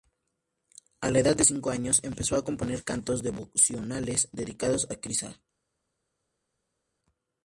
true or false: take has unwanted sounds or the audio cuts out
false